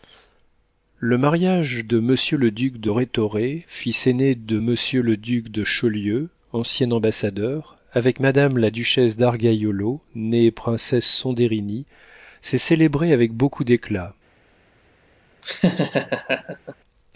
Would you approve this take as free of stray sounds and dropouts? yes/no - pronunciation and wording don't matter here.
no